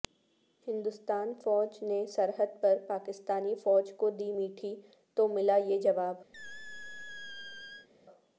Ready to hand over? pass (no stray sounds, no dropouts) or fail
fail